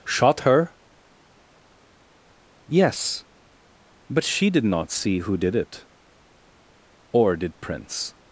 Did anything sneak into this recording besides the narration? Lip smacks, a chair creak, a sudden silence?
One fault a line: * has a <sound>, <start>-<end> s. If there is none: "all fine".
all fine